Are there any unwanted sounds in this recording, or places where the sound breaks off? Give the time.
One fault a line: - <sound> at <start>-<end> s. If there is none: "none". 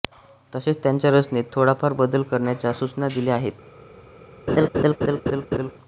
- laugh at 4.5-5.7 s